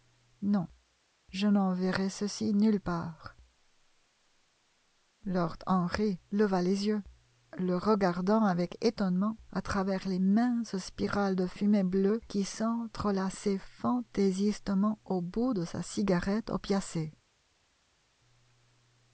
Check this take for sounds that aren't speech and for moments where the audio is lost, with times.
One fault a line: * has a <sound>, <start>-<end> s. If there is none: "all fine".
all fine